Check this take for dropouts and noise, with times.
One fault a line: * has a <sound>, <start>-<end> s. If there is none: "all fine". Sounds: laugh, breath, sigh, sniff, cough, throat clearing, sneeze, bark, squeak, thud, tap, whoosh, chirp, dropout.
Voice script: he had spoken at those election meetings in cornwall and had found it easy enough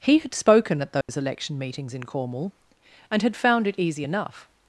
* has a dropout, 1.0-1.1 s